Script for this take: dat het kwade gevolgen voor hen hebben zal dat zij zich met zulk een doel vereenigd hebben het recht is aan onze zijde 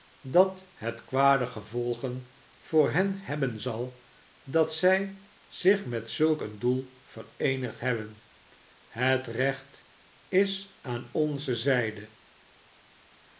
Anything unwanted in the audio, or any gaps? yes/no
no